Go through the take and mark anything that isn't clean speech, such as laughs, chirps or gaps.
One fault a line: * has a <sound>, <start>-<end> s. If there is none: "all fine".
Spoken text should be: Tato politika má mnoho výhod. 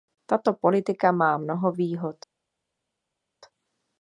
all fine